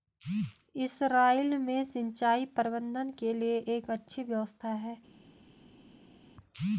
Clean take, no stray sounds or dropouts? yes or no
yes